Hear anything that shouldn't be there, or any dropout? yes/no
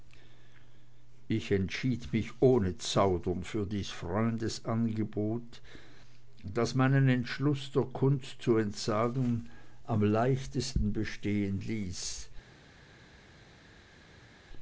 no